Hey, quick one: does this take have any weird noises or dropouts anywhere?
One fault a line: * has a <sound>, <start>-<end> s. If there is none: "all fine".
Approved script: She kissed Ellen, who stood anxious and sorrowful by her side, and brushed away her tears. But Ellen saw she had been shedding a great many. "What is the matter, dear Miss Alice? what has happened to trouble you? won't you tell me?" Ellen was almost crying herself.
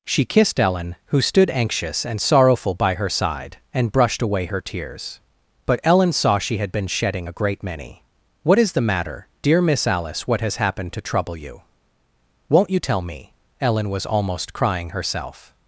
all fine